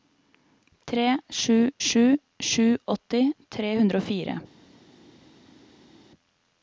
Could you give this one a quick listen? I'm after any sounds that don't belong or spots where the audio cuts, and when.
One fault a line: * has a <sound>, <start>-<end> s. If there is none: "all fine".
all fine